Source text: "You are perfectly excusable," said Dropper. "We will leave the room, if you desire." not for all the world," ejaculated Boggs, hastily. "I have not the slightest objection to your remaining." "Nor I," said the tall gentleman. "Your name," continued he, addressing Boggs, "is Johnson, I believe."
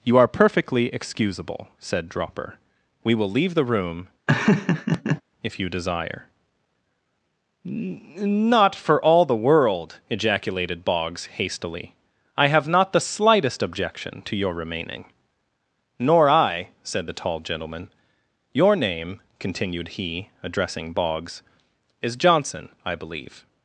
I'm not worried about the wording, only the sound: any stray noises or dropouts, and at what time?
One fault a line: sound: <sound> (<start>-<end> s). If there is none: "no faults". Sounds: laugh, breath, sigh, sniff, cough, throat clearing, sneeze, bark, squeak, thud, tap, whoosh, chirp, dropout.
sound: laugh (4.3-5.2 s)